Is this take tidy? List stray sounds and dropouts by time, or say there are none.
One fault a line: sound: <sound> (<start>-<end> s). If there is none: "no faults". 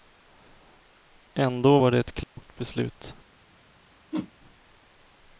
sound: dropout (2.2-2.4 s)
sound: whoosh (4.1-4.3 s)